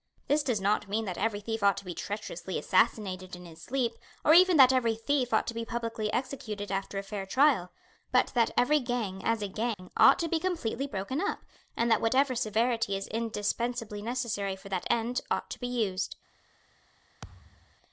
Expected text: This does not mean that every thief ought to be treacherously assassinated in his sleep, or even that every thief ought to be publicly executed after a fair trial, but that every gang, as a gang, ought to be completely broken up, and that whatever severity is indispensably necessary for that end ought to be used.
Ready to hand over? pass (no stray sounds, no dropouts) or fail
fail